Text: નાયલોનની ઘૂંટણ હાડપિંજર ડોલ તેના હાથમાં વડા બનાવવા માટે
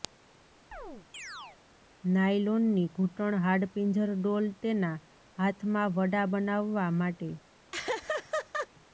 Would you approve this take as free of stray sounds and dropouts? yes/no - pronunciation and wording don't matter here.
no